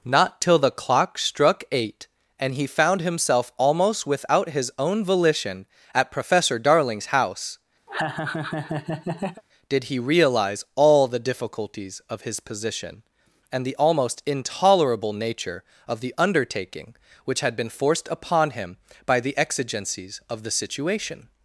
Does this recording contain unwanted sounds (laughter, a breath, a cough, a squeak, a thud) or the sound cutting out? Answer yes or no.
yes